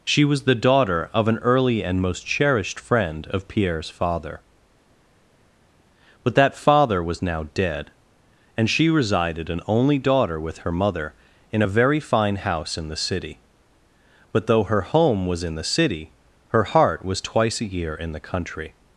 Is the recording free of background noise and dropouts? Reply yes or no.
yes